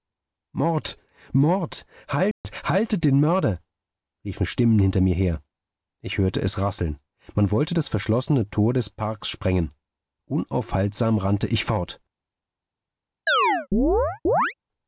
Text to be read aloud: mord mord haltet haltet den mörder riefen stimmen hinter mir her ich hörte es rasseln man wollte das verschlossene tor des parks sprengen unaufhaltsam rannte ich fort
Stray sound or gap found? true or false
true